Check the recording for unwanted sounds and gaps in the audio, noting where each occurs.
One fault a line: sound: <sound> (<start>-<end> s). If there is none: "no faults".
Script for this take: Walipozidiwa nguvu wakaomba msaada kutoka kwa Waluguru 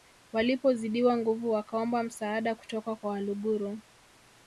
no faults